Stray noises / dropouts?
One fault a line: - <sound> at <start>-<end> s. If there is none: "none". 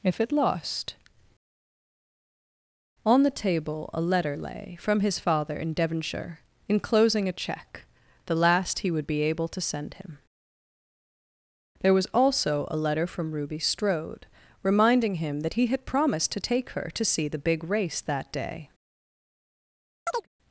- chirp at 20.1-20.3 s